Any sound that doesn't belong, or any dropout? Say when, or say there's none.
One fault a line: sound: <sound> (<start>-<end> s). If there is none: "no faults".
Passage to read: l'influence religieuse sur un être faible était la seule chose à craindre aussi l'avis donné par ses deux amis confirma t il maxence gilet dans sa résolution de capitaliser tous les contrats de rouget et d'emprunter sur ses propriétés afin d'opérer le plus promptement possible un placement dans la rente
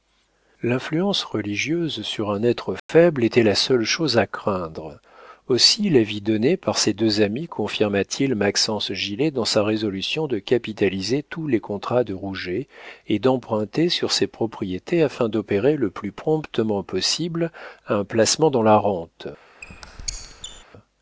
sound: dropout (2.8-2.9 s)
sound: squeak (19.6-20.6 s)